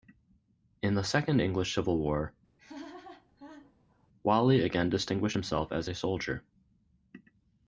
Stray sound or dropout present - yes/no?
yes